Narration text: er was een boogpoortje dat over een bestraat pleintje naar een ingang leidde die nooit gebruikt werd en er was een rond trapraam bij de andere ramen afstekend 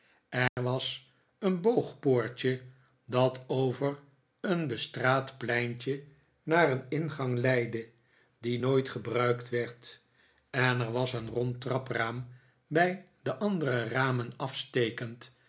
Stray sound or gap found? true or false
true